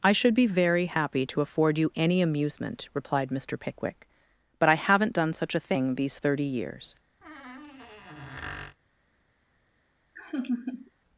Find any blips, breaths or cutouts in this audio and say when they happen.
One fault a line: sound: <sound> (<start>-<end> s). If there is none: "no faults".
sound: squeak (7.2-8.8 s)
sound: laugh (10.2-10.9 s)